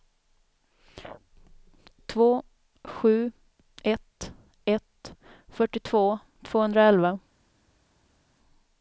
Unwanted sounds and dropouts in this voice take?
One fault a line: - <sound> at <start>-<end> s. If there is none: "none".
none